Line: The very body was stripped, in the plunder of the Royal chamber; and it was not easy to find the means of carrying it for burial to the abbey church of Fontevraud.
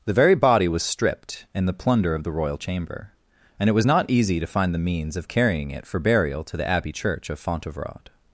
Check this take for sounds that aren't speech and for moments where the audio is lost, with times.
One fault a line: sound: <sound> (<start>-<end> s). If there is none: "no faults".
no faults